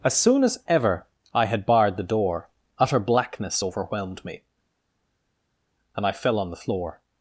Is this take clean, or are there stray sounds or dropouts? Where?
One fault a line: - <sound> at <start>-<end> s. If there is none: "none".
none